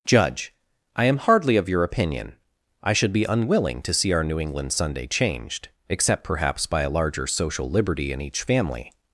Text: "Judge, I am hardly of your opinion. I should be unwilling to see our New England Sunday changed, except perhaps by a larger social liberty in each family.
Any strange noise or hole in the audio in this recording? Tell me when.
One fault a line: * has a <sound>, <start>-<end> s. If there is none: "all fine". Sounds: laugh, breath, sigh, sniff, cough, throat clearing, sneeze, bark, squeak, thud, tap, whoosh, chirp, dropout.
all fine